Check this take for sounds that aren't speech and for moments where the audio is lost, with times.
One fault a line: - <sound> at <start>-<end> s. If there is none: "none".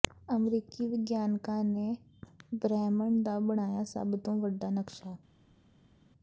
none